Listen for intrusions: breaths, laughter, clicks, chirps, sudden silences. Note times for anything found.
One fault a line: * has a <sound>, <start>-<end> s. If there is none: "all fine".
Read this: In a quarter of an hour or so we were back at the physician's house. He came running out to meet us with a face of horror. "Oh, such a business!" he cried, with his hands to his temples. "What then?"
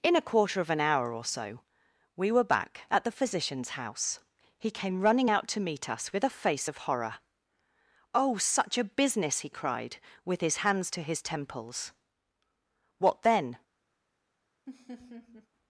* has a laugh, 14.7-15.5 s